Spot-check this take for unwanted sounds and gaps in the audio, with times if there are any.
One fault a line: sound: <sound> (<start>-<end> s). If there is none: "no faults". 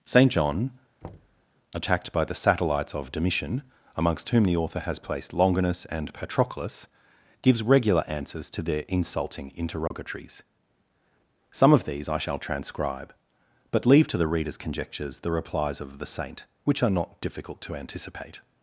sound: thud (1.0-1.5 s)
sound: dropout (9.9-9.9 s)